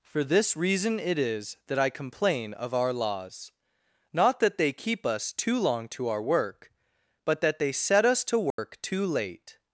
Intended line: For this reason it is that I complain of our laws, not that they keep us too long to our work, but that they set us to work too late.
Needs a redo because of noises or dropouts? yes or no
yes